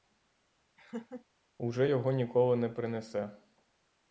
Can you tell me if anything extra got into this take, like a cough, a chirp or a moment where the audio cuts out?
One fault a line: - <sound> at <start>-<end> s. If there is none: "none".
- laugh at 0.8-1.3 s